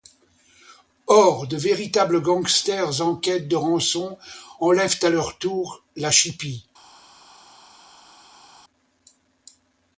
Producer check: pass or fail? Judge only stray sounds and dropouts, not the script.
pass